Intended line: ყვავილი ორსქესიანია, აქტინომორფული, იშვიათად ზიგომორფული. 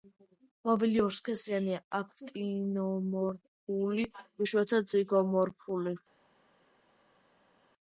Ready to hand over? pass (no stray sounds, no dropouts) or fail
pass